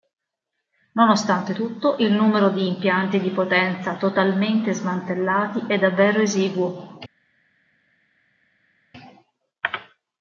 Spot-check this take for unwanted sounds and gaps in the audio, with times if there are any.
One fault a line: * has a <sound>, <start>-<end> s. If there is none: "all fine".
all fine